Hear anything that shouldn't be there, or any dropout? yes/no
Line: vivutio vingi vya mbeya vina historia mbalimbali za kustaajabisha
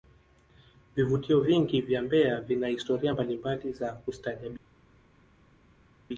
no